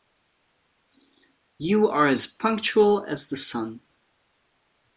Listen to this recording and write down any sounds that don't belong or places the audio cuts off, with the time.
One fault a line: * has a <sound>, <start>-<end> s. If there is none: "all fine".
all fine